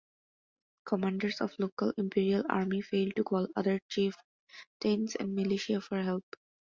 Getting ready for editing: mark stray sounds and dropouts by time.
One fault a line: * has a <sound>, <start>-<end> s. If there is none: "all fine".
all fine